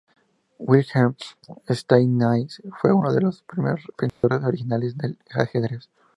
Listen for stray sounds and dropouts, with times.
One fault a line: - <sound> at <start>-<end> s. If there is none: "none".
- dropout at 4.1-4.2 s